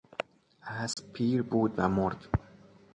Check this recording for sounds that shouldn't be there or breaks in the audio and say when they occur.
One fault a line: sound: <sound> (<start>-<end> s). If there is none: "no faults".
sound: dropout (0.9-1.0 s)